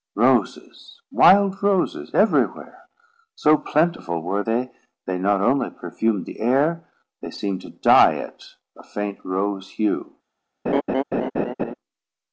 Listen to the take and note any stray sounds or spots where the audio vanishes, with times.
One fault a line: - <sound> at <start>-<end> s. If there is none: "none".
- laugh at 10.7-11.7 s